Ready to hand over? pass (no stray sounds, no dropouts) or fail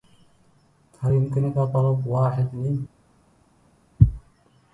pass